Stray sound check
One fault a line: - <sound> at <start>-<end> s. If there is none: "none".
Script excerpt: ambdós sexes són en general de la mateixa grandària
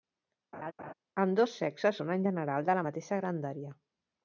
- laugh at 0.5-0.9 s